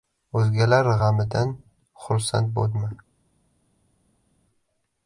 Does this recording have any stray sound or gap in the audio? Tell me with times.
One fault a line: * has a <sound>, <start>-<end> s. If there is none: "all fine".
all fine